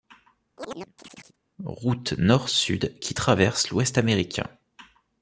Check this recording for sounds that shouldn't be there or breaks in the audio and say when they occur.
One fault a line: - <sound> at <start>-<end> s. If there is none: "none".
- chirp at 0.6-1.4 s